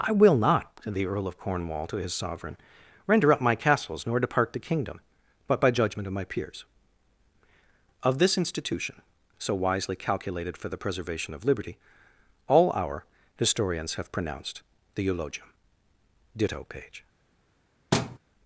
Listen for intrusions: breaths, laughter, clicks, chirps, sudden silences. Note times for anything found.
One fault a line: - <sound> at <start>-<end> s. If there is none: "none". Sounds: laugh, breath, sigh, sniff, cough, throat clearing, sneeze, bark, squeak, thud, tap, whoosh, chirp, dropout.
- thud at 17.9-18.2 s